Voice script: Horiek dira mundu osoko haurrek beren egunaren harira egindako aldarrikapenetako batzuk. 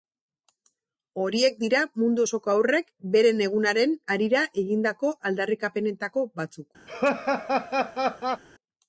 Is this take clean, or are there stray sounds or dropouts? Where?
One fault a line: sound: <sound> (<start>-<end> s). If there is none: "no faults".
sound: laugh (6.9-8.4 s)